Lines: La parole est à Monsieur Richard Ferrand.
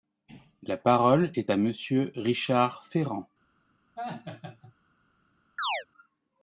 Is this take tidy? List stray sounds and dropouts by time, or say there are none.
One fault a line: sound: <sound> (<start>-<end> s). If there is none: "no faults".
sound: laugh (4.0-4.7 s)
sound: chirp (5.6-5.9 s)